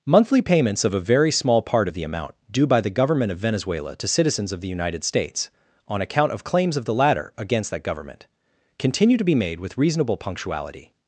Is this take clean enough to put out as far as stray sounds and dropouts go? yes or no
yes